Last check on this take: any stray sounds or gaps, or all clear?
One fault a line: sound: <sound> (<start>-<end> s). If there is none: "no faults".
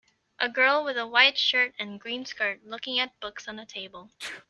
sound: sneeze (4.2-4.5 s)